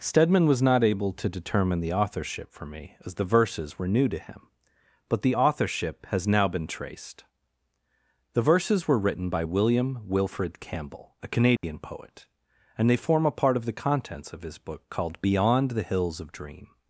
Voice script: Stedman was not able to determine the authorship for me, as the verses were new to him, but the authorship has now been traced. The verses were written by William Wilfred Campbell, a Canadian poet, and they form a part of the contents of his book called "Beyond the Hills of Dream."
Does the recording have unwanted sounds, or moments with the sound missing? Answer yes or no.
yes